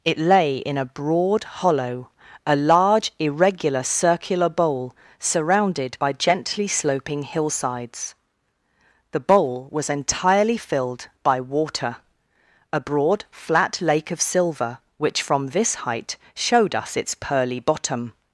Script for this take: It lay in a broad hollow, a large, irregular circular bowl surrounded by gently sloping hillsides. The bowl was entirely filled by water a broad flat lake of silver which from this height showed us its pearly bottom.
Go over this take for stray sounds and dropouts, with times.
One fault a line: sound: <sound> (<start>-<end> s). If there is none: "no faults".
no faults